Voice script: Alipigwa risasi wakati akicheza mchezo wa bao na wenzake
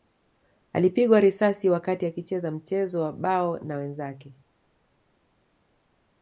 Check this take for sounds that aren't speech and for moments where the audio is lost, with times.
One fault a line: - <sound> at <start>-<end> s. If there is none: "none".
none